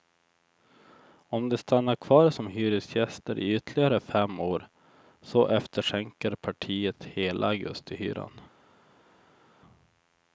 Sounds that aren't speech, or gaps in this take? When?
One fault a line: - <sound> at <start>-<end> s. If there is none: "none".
none